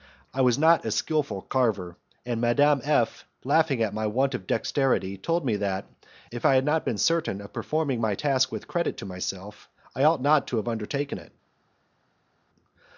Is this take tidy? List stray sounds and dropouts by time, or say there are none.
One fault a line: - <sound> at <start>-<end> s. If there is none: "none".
none